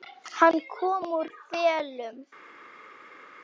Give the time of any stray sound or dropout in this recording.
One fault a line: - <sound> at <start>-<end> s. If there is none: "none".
none